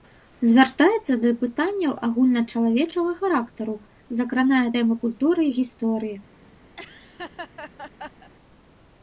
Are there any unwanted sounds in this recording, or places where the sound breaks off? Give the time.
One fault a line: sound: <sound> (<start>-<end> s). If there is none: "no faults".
sound: laugh (6.8-8.3 s)